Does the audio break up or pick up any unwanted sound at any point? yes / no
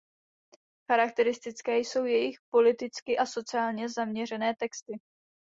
no